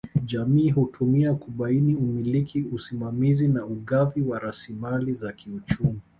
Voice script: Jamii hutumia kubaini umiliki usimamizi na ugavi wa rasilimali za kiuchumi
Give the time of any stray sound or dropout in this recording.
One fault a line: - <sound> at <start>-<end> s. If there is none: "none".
none